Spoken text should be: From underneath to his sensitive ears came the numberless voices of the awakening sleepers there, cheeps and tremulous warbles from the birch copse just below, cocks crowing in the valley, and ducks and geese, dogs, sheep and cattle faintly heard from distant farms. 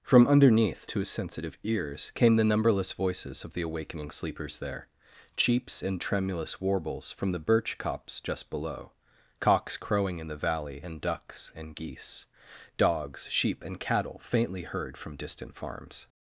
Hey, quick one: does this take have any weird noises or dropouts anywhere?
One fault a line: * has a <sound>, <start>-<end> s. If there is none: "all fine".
all fine